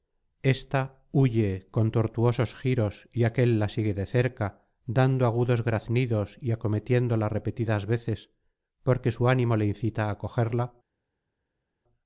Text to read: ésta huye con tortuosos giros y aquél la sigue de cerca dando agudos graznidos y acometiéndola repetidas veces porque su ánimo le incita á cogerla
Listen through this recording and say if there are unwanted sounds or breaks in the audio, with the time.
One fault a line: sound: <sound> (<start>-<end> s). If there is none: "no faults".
no faults